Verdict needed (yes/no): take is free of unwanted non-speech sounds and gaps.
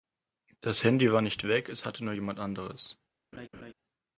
no